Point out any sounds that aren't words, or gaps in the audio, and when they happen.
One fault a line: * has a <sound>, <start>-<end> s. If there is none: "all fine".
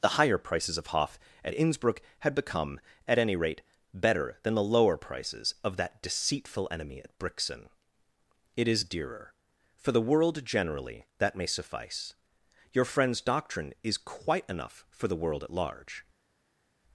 all fine